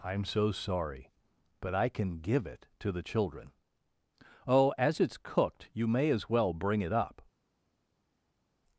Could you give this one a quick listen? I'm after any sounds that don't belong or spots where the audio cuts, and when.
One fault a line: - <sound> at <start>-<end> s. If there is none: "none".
none